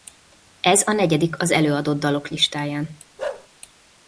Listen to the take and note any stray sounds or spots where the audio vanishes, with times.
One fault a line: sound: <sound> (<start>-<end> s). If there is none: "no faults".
sound: bark (3.2-3.5 s)